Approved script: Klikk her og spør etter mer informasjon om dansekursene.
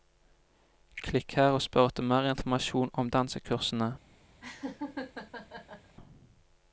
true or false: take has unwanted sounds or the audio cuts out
true